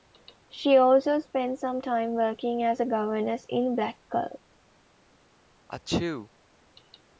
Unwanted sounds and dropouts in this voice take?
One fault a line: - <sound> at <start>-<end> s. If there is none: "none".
- sneeze at 5.7-6.3 s